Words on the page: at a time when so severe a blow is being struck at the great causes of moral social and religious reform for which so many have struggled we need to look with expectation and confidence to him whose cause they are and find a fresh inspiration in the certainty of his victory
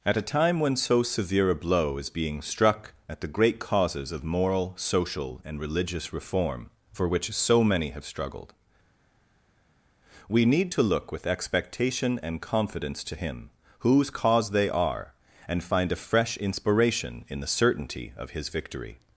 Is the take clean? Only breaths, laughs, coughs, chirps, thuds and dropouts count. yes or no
yes